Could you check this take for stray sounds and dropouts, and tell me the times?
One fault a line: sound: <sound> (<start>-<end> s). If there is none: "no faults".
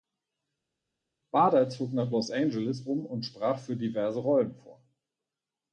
no faults